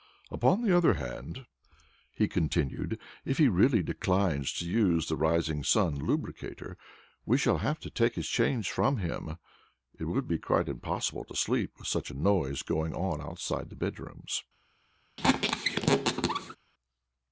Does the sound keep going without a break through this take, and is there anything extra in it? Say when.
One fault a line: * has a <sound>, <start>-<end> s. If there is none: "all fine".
* has a squeak, 15.2-16.6 s